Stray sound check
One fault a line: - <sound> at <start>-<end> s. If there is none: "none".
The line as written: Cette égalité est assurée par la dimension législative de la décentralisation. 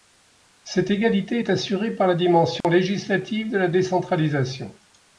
- dropout at 2.6-2.6 s